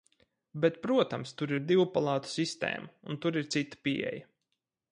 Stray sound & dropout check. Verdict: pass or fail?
pass